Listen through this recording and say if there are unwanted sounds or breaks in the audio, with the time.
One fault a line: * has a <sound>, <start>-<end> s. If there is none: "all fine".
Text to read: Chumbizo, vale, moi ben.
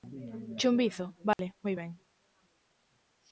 * has a dropout, 1.3-1.4 s